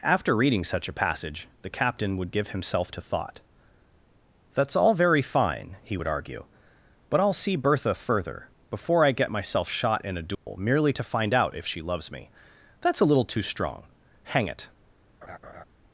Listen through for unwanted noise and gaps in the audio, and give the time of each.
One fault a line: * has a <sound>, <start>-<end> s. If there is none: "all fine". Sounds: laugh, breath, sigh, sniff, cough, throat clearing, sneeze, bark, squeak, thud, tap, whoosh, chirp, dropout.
* has a dropout, 10.3-10.5 s
* has a laugh, 15.2-15.6 s